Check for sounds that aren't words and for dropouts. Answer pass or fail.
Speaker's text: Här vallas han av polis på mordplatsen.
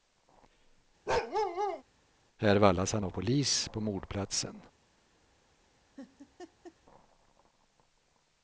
fail